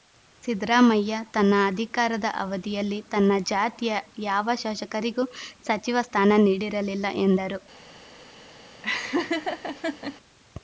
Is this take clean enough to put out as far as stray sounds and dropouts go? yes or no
no